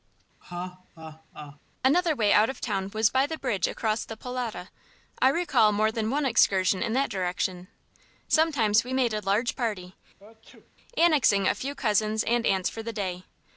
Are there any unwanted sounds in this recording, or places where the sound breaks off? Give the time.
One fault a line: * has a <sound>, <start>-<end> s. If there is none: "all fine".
* has a laugh, 0.4-1.6 s
* has a sneeze, 10.2-10.7 s